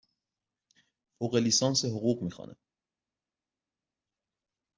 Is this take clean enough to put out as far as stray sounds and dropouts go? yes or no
yes